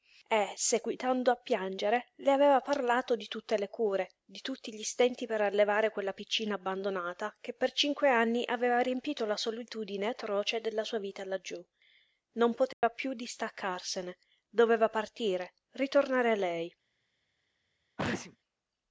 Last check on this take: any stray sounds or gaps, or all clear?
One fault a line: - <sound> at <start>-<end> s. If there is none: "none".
- dropout at 12.7-12.8 s
- sneeze at 18.0-18.4 s